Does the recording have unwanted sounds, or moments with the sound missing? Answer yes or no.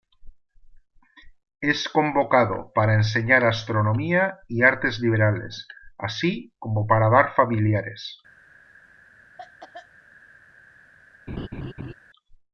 yes